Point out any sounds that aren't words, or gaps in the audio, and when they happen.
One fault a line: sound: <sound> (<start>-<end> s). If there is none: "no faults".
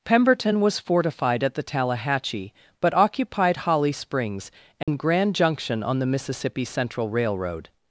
sound: dropout (4.8-4.9 s)